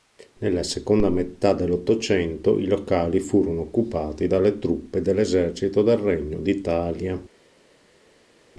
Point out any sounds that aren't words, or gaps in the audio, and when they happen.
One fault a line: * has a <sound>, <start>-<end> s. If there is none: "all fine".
all fine